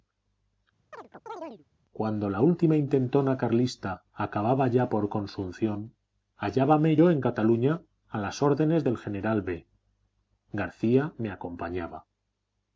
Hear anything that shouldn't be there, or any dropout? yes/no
yes